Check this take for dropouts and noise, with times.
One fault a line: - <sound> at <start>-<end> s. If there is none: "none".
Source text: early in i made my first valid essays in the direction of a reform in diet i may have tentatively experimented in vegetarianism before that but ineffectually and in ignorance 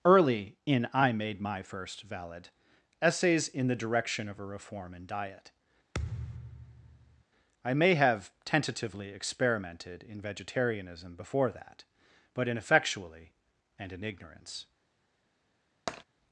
- thud at 5.9-7.2 s
- tap at 15.9-16.0 s